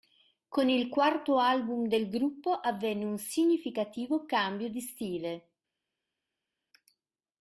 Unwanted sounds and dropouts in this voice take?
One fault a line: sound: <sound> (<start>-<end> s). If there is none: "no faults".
no faults